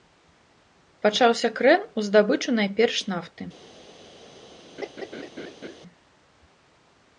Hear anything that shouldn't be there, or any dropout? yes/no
yes